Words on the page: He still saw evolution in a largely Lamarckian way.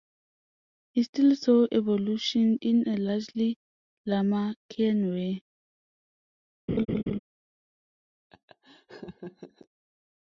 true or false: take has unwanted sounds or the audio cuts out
true